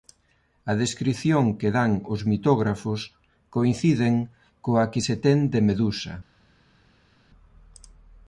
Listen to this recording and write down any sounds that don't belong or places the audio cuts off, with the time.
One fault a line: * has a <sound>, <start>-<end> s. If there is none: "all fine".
all fine